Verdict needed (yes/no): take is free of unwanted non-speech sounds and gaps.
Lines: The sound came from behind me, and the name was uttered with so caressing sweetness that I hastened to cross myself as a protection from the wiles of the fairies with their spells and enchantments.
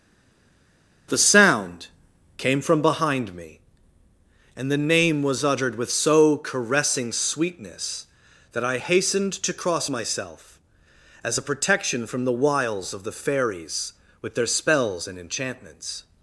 yes